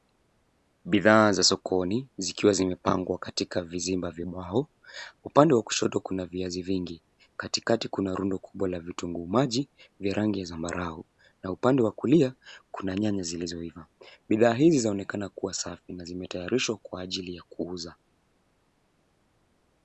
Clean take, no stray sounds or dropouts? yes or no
yes